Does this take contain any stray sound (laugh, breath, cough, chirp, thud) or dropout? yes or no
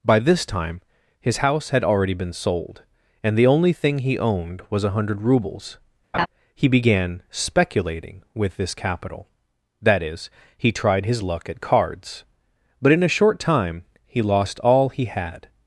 yes